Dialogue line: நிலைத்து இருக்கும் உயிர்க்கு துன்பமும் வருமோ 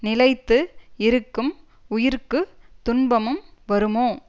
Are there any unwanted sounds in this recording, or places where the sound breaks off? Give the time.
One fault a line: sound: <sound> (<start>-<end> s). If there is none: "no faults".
no faults